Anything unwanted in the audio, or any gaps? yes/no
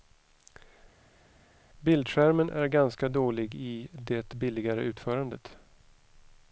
no